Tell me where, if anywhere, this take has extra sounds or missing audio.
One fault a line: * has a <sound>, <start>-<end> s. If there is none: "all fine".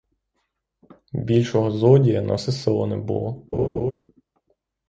* has a laugh, 3.5-3.9 s